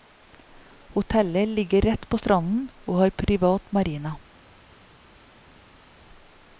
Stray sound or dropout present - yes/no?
no